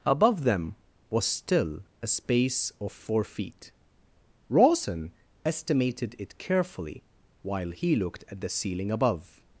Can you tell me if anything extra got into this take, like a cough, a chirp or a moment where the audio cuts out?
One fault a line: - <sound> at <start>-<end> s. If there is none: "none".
none